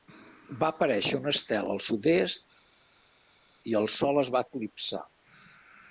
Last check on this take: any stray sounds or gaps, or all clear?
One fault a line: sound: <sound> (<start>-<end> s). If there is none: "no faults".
no faults